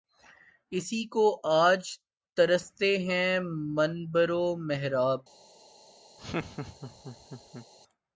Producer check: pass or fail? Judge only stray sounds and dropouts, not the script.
fail